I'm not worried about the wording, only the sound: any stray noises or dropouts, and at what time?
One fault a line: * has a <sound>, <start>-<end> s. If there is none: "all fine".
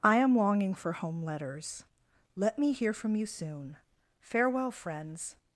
all fine